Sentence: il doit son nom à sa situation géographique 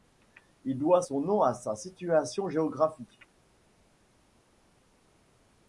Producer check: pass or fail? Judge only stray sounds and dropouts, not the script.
pass